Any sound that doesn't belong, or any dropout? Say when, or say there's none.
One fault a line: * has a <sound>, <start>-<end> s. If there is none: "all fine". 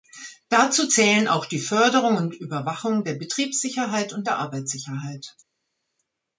all fine